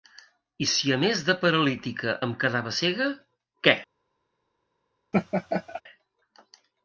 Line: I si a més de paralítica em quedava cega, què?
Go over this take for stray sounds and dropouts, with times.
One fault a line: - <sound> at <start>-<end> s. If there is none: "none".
- laugh at 5.1-5.8 s